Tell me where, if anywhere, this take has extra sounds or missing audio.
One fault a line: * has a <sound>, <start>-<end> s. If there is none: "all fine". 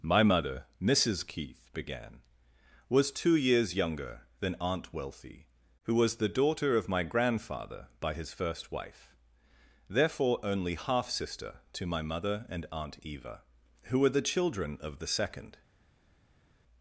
all fine